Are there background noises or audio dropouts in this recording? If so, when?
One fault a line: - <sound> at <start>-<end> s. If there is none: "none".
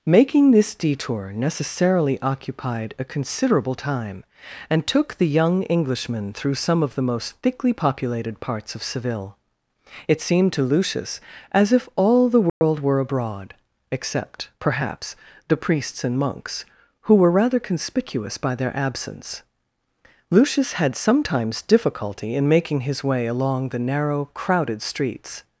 - dropout at 12.5-12.6 s